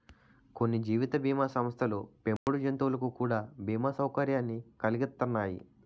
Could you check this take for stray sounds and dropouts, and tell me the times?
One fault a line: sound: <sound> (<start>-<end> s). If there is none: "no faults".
sound: dropout (2.4-2.5 s)